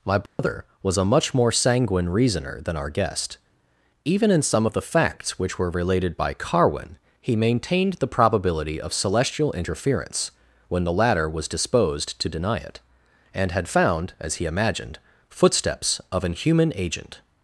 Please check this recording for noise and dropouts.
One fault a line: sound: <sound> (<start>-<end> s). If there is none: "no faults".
sound: dropout (0.3-0.4 s)